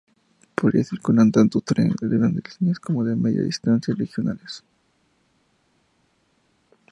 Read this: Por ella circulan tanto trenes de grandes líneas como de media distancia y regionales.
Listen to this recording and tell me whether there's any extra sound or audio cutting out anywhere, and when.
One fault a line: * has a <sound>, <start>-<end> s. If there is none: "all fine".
all fine